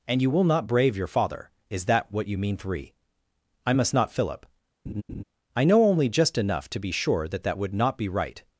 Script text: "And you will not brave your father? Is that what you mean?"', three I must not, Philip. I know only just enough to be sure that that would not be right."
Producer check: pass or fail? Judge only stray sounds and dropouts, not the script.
fail